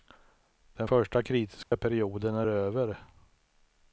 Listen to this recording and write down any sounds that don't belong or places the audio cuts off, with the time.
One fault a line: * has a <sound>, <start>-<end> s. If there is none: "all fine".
* has a dropout, 1.6-1.7 s